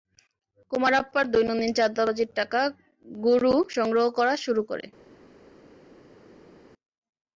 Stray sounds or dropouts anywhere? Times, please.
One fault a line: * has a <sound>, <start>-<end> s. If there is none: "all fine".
all fine